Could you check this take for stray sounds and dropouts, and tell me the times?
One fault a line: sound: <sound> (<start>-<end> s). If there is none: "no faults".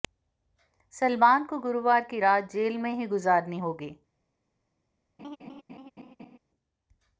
sound: laugh (5.2-6.4 s)